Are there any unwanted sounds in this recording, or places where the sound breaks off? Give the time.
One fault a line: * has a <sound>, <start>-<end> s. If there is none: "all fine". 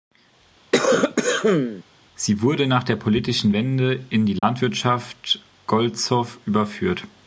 * has a cough, 0.7-1.8 s
* has a dropout, 4.4-4.4 s